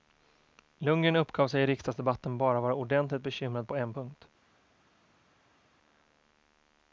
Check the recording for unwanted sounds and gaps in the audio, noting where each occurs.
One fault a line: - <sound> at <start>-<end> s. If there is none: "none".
none